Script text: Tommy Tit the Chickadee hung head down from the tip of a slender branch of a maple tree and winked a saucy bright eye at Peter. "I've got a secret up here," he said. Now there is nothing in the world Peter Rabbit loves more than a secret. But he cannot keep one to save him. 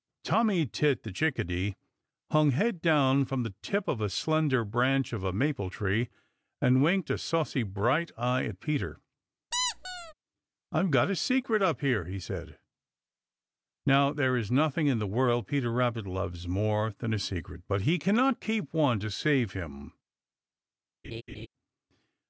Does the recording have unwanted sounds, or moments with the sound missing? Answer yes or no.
yes